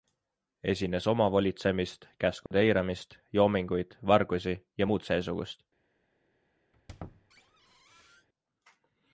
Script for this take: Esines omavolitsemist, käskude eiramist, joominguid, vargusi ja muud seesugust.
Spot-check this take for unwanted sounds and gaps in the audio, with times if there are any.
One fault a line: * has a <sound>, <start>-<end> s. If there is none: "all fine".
* has a dropout, 2.5-2.5 s
* has a squeak, 6.7-8.3 s